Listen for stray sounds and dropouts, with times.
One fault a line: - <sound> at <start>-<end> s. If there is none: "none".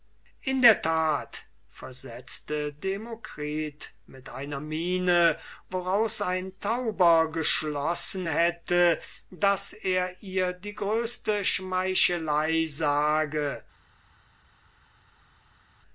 none